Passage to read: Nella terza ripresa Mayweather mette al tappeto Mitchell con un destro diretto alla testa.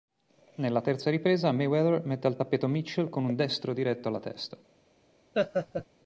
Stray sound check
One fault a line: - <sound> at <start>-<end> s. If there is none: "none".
- laugh at 5.3-5.9 s